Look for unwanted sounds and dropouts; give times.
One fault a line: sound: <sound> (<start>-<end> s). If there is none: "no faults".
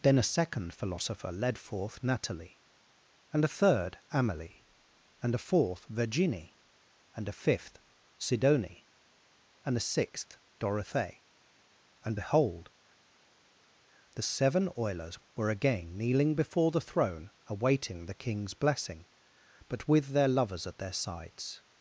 no faults